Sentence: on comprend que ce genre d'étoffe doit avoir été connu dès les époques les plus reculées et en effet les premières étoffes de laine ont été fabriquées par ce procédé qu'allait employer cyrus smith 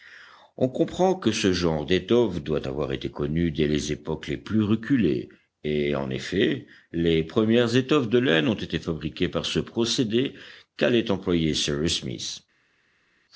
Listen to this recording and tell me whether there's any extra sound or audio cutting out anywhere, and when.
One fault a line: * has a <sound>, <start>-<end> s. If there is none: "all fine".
all fine